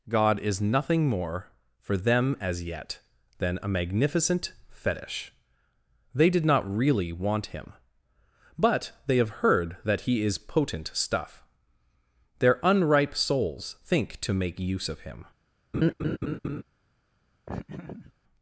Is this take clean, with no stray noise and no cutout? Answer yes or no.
no